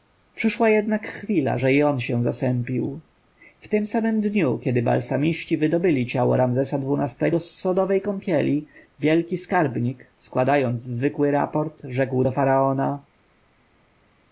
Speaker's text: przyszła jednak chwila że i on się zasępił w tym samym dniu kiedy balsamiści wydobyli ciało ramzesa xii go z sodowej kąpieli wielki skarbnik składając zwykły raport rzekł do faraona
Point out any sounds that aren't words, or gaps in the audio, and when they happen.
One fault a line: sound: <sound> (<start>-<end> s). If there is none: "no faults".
no faults